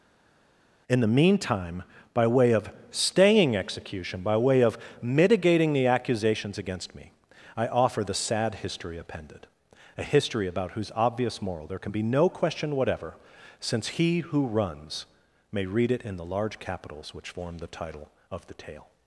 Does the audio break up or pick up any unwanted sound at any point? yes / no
no